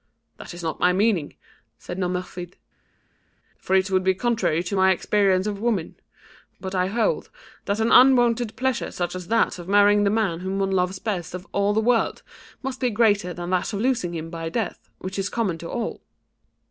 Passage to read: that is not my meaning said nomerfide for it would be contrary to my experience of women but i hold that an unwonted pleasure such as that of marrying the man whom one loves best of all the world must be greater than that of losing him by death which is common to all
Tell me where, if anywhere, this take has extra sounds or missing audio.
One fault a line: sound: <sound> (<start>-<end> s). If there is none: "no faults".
no faults